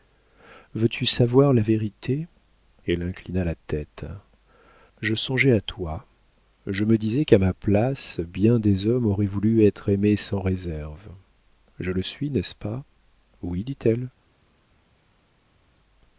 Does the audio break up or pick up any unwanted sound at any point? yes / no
no